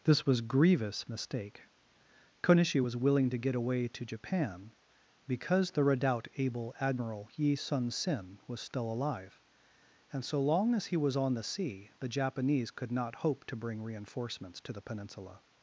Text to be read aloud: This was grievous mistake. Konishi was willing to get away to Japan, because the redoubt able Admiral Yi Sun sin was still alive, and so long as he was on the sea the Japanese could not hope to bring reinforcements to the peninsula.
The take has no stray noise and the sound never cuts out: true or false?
true